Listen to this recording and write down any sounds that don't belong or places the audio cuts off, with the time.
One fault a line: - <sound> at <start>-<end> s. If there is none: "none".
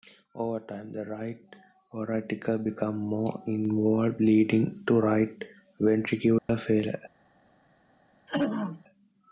- dropout at 6.4-6.5 s
- throat clearing at 8.3-8.8 s